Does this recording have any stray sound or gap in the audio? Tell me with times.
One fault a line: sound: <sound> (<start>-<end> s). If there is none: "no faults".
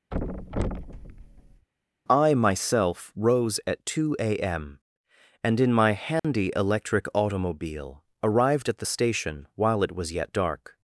sound: thud (0.1-1.7 s)
sound: dropout (6.2-6.2 s)